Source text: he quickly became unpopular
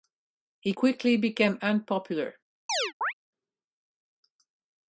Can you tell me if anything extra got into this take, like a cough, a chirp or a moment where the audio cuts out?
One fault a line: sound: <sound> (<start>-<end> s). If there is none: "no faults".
sound: chirp (2.7-3.1 s)